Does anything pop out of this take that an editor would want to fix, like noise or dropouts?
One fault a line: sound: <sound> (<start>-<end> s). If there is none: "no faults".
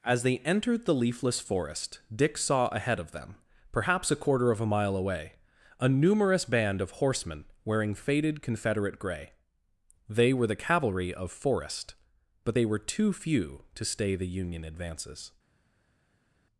no faults